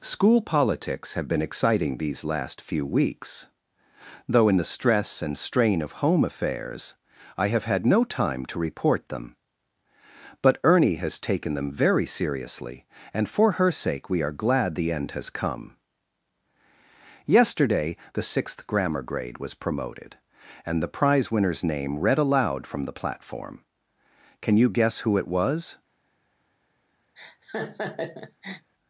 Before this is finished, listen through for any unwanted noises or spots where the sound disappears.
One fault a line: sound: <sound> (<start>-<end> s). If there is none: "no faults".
sound: laugh (27.2-28.7 s)